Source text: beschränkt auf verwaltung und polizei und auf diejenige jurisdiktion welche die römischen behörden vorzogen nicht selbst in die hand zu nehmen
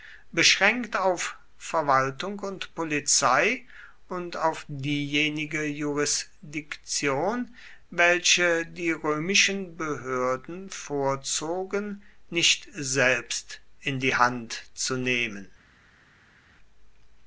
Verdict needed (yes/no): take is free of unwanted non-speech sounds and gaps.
yes